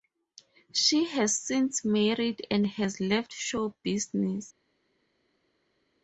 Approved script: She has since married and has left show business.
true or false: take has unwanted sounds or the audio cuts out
false